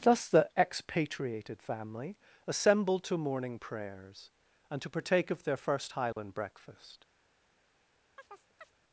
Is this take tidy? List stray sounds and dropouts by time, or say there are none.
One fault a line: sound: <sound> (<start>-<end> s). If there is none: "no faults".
sound: dropout (6.1-6.2 s)
sound: chirp (8.2-8.8 s)